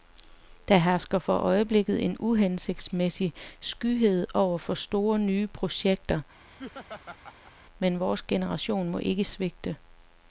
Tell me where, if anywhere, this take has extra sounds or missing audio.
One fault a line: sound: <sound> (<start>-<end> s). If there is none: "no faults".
sound: laugh (6.5-7.5 s)